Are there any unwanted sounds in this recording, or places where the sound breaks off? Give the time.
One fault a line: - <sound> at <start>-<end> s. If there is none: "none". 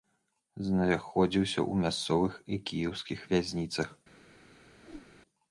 - whoosh at 4.8-5.1 s